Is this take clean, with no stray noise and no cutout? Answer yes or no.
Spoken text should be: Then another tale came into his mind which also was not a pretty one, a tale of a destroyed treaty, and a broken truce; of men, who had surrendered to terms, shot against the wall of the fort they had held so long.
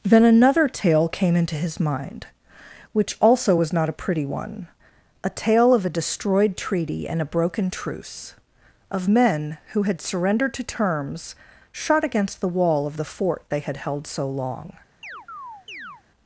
no